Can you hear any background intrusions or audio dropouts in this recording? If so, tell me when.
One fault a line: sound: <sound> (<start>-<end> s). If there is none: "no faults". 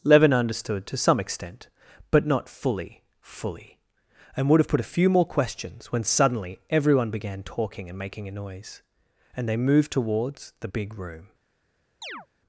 sound: chirp (12.0-12.3 s)